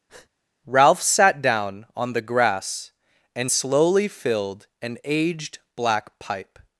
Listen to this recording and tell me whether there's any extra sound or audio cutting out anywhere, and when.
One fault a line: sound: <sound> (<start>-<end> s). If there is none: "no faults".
sound: breath (0.1-0.3 s)